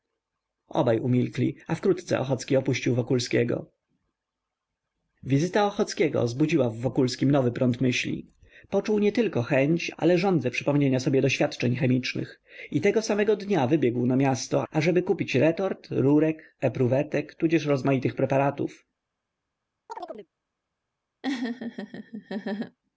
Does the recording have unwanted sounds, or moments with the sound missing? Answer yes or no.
yes